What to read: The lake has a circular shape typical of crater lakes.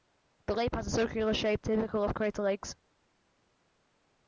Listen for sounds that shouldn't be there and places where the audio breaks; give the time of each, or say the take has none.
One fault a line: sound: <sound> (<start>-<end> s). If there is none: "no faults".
no faults